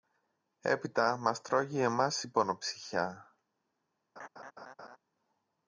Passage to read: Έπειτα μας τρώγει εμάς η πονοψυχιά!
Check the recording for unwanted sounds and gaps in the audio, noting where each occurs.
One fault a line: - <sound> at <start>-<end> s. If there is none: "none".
- laugh at 4.2-5.0 s